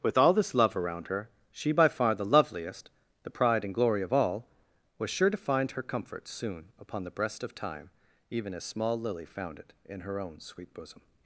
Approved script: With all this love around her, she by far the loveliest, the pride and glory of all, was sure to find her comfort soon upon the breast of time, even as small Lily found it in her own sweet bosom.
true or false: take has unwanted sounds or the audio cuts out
false